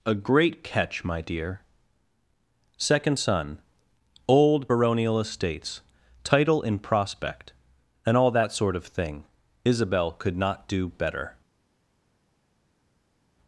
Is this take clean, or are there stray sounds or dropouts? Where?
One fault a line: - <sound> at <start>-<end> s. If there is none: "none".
none